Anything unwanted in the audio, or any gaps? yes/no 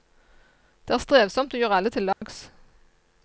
yes